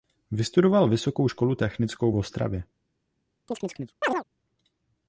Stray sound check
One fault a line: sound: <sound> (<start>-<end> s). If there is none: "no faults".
sound: chirp (3.5-4.2 s)